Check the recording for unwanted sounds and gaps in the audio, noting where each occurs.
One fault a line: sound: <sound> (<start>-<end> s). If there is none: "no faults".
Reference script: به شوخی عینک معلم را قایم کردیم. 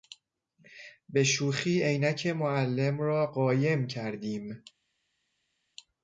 no faults